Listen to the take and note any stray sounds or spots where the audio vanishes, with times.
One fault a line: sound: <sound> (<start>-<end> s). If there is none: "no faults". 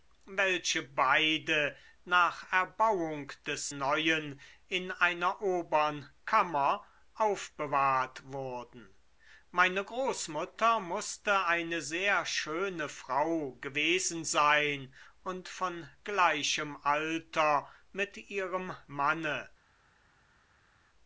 no faults